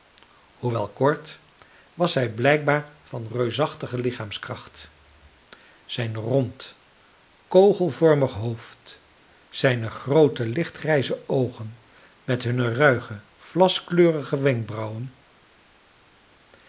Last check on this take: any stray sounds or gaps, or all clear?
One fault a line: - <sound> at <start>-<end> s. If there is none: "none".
none